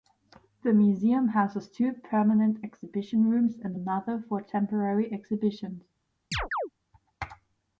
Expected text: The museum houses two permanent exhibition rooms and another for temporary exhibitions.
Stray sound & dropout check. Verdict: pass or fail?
fail